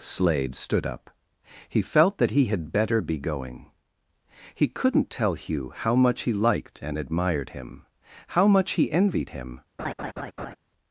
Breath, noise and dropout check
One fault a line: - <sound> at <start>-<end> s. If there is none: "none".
- laugh at 9.8-10.6 s